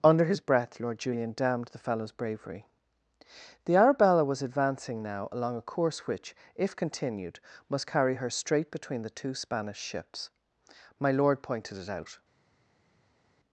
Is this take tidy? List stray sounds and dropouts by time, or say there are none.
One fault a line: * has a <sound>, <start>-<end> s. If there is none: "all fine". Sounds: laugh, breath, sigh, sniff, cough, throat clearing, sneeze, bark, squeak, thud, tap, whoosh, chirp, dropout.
all fine